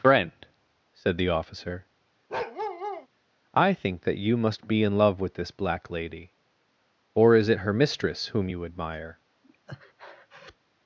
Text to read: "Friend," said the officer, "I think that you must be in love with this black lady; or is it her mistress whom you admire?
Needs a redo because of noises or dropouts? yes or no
yes